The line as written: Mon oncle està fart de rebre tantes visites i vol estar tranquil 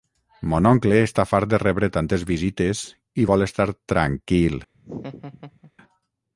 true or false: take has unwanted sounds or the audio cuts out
true